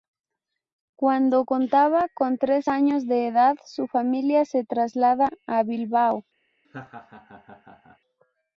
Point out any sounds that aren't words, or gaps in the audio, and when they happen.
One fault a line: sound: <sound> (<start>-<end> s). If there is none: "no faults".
sound: laugh (6.6-8.0 s)